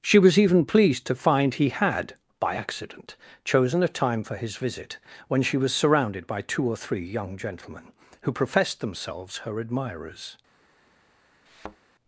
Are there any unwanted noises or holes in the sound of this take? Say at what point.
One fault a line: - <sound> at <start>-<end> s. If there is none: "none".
- thud at 11.5-11.8 s